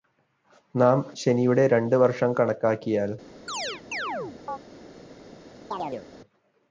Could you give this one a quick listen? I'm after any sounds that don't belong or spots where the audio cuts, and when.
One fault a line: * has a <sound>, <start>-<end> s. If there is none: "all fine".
* has a chirp, 3.5-4.6 s
* has a chirp, 5.7-6.1 s